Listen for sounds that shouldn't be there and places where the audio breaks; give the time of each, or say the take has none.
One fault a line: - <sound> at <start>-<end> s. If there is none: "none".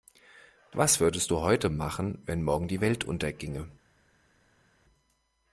none